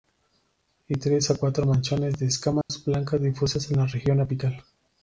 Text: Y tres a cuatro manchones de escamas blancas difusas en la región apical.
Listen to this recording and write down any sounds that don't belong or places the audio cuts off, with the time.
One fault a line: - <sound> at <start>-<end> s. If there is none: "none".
- dropout at 2.6-2.7 s